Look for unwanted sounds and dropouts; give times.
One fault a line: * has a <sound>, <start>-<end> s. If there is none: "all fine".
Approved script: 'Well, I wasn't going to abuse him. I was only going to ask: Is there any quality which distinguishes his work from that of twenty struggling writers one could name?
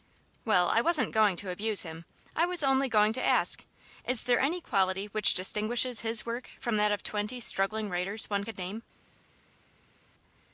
all fine